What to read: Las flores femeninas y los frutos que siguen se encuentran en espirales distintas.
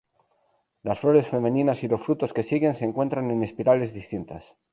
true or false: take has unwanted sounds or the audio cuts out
false